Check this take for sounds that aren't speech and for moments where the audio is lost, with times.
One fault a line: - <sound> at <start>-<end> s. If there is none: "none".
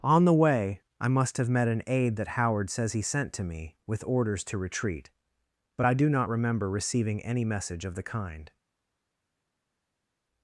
none